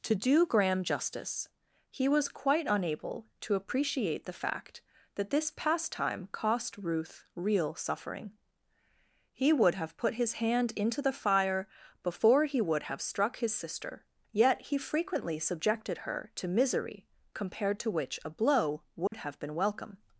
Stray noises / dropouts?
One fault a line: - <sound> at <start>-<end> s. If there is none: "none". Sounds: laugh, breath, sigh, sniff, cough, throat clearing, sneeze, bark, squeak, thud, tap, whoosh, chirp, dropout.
- dropout at 19.1-19.1 s